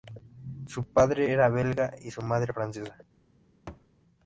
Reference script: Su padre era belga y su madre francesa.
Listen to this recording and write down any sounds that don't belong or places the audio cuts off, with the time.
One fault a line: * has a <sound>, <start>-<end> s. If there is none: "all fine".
* has a thud, 3.7-3.9 s